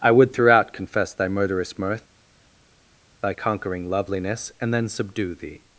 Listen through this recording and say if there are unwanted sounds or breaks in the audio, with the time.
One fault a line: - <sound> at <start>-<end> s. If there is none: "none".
none